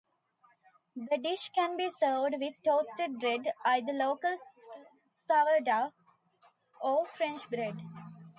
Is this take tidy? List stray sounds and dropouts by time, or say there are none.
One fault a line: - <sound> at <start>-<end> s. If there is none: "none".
none